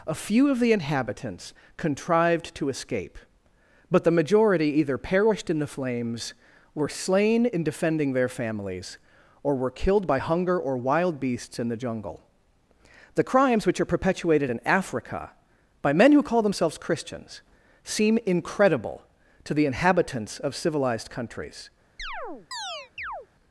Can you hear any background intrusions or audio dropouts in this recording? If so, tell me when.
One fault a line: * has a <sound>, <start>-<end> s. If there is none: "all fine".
* has a chirp, 22.0-23.3 s